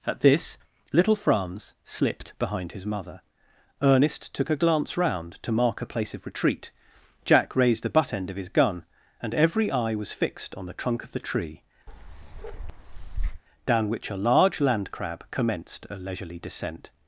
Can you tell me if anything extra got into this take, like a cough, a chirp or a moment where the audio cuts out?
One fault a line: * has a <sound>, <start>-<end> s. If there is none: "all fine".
* has a bark, 11.9-13.4 s